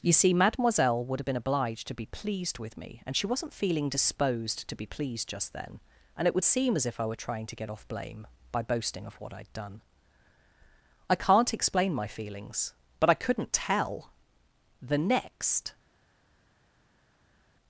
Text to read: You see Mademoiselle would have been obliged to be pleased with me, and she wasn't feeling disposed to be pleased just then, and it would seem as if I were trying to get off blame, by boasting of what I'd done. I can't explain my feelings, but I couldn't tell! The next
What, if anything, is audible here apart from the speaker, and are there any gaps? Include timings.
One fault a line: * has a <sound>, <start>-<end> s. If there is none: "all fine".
all fine